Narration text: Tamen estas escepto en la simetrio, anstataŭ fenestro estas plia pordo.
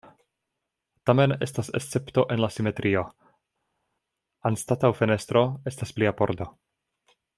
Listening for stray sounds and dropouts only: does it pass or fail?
pass